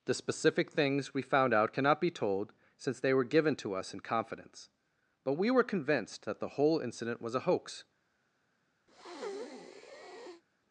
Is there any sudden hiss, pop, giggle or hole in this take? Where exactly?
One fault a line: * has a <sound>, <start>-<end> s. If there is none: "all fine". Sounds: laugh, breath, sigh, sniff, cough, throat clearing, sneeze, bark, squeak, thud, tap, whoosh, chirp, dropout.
* has a breath, 8.9-10.4 s